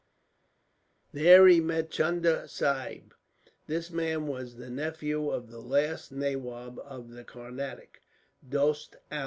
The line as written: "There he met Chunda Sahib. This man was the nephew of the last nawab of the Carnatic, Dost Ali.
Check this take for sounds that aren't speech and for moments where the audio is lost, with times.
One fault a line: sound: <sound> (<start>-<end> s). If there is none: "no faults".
no faults